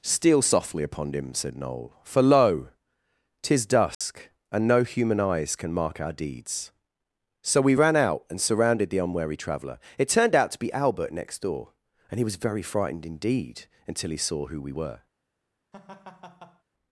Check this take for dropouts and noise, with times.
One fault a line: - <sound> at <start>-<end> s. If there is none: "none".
- dropout at 3.9-4.0 s
- laugh at 15.7-16.6 s